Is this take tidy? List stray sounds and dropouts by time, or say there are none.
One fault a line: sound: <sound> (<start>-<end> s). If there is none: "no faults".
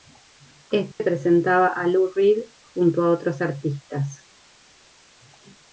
sound: dropout (0.9-1.0 s)